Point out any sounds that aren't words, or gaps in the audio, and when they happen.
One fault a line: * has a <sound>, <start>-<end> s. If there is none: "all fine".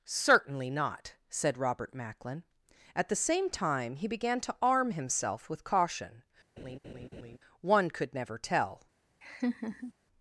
* has a laugh, 6.6-7.4 s
* has a laugh, 9.2-9.9 s